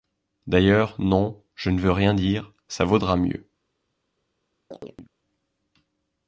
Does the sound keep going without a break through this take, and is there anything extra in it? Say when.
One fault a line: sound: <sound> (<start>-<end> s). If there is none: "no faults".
sound: chirp (4.7-5.1 s)